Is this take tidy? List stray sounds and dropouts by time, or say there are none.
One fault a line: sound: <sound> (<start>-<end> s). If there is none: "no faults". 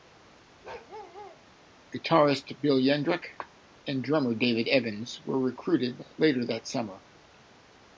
sound: bark (0.6-1.4 s)